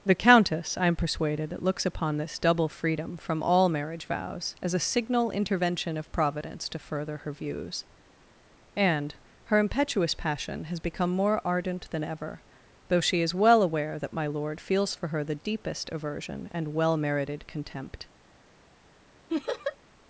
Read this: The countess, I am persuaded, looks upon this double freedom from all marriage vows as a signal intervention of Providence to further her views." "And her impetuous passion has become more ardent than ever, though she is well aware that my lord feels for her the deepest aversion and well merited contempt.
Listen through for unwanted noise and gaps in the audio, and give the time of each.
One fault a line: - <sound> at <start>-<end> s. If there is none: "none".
- laugh at 19.3-19.8 s